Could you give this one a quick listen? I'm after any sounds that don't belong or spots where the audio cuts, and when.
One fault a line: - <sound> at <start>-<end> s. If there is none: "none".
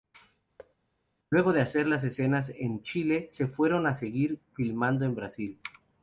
- thud at 0.6-0.8 s